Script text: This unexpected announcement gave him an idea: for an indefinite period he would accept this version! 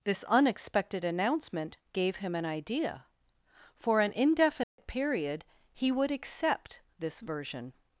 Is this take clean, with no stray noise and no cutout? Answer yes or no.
no